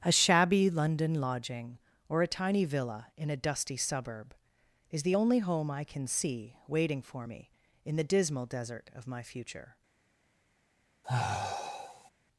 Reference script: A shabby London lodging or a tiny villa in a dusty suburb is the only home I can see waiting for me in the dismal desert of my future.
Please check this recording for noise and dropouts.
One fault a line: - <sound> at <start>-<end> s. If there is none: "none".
- sigh at 11.0-12.1 s